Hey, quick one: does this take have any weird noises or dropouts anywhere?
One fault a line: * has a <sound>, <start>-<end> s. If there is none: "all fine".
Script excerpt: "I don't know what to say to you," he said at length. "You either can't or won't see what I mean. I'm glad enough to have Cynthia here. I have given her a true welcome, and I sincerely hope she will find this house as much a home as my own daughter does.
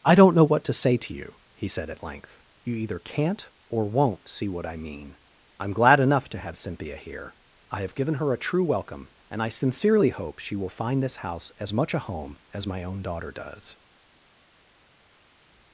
all fine